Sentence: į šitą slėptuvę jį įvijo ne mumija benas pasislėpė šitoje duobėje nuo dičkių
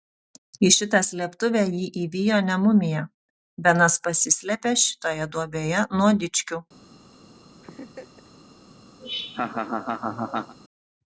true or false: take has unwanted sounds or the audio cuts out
true